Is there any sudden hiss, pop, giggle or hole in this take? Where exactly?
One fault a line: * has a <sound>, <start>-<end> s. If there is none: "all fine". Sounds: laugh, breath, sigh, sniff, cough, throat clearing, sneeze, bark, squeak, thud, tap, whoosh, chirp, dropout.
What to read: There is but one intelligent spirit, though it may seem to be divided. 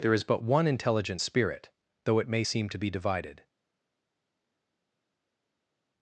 all fine